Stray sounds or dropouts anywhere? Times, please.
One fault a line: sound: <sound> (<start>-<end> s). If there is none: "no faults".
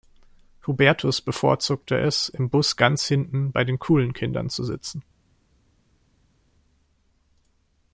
no faults